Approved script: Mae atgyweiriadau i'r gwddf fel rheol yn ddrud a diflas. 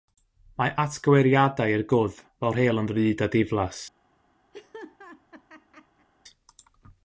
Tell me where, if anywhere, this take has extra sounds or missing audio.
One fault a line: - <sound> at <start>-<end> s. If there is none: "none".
- laugh at 4.5-6.1 s